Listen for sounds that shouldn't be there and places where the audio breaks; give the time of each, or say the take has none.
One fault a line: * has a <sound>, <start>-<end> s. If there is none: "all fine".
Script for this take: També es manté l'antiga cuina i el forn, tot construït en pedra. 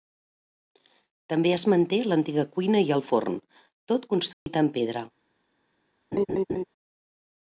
* has a dropout, 4.3-4.5 s
* has a laugh, 6.1-6.6 s